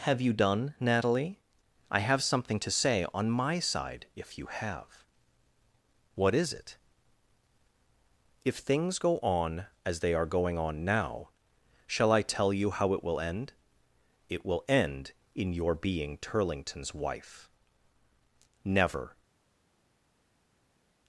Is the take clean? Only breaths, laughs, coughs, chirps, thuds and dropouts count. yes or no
yes